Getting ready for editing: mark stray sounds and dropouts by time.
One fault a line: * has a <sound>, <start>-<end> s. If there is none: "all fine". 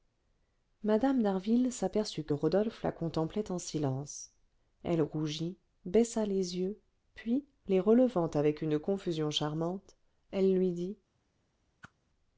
* has a whoosh, 11.8-11.9 s